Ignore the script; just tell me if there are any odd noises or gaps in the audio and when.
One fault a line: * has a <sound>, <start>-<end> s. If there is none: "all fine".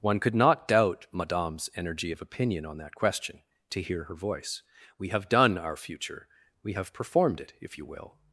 all fine